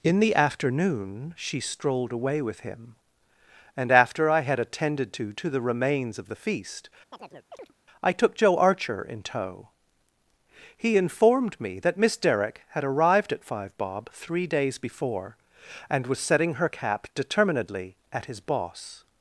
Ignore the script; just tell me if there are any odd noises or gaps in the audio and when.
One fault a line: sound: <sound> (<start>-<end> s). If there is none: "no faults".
sound: chirp (7.1-7.7 s)